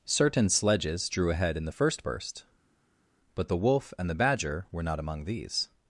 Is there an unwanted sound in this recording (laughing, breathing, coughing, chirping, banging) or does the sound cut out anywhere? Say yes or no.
no